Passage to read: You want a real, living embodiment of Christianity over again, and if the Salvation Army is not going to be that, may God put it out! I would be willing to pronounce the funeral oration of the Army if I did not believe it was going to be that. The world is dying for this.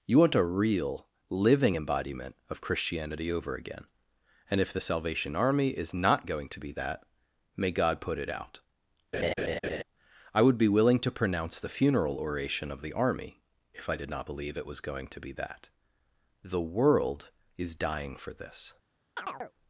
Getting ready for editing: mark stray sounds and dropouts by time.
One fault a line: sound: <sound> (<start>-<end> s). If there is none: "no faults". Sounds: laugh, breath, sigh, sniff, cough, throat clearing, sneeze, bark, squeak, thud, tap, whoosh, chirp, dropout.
sound: laugh (9.1-9.8 s)
sound: chirp (19.2-19.5 s)